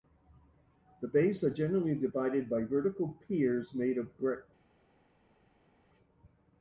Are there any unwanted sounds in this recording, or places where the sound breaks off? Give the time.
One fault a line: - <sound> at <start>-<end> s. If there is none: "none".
none